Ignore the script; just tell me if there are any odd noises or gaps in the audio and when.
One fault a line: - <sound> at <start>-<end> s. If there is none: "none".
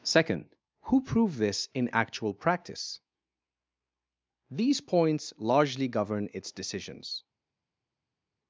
none